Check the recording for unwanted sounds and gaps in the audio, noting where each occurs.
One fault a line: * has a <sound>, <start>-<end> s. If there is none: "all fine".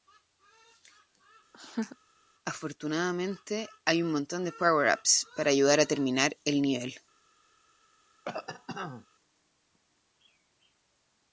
* has a laugh, 1.5-2.0 s
* has a cough, 8.2-9.1 s